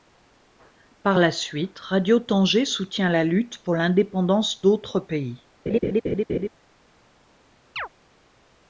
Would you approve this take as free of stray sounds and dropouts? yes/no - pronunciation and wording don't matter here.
no